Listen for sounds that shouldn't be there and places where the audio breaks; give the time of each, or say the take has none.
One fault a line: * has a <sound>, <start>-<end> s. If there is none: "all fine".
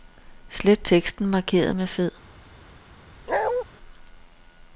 * has a bark, 3.3-3.6 s